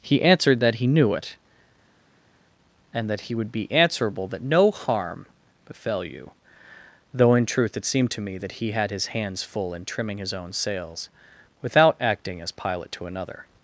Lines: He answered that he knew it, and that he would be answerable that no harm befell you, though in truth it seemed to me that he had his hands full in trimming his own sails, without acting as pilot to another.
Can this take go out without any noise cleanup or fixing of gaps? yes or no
yes